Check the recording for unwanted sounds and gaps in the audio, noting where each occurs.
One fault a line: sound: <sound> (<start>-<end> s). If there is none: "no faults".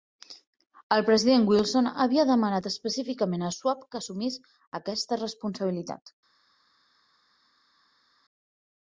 no faults